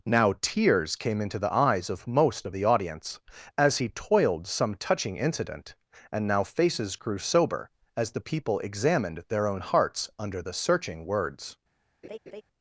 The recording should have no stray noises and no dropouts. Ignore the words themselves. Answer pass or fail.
fail